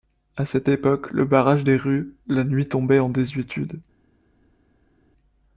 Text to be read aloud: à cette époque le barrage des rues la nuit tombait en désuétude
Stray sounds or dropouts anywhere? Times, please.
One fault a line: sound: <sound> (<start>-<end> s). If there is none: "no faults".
no faults